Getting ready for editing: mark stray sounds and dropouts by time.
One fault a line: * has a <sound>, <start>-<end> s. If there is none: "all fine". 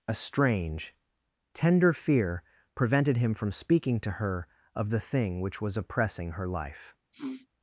* has a sniff, 7.1-7.5 s